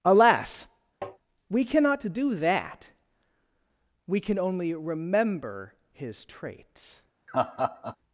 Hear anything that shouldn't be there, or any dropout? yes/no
yes